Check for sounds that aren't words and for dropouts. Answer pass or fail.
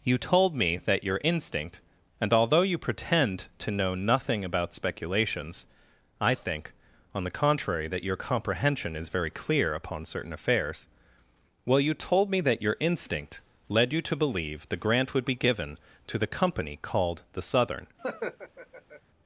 fail